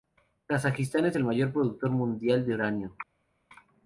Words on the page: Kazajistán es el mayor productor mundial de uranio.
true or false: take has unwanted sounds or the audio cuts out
false